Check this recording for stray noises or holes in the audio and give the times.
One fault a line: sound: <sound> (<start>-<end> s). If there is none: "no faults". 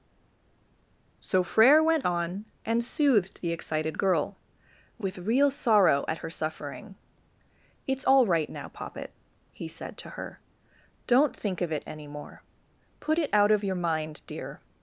no faults